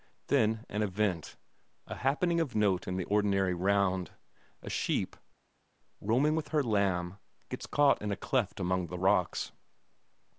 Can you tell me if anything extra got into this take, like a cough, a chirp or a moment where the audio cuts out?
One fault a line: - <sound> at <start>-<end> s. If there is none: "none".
none